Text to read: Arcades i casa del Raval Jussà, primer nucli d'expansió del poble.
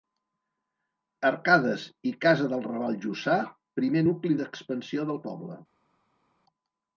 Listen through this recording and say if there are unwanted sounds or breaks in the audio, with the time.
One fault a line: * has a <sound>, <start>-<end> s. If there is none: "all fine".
all fine